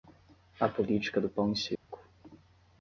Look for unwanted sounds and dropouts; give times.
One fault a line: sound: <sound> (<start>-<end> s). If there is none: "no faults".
sound: dropout (1.8-1.9 s)